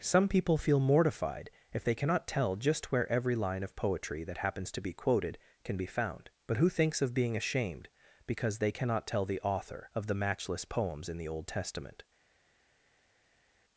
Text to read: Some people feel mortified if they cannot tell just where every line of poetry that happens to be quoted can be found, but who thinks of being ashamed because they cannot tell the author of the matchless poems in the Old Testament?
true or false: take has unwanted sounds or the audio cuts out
false